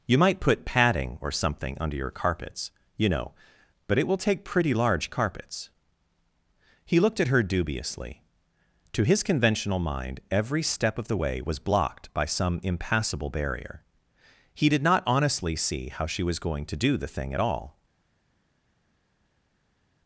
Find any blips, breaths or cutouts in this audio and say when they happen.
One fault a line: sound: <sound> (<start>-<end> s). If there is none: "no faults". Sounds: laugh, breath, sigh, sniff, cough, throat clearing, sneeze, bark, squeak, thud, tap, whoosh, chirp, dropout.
no faults